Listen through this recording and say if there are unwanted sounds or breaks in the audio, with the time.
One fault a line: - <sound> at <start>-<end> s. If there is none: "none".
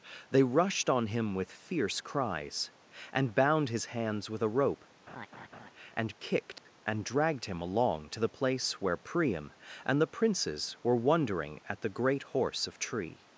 - laugh at 5.1-5.7 s
- dropout at 6.6-6.7 s